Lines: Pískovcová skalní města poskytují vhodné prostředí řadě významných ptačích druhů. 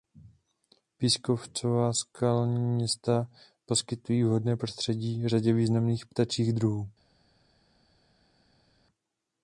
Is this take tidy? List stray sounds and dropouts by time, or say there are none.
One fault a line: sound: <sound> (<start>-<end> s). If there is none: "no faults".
no faults